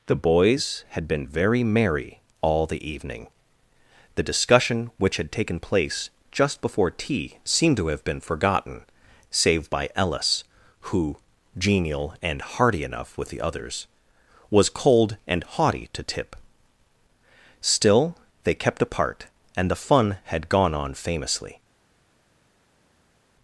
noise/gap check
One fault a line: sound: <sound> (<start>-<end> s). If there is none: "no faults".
no faults